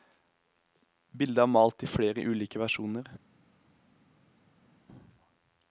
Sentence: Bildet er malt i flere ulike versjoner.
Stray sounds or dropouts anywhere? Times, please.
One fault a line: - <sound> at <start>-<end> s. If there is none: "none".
none